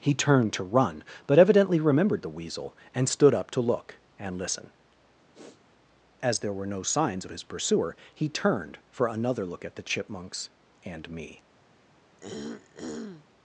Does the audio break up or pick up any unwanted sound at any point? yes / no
yes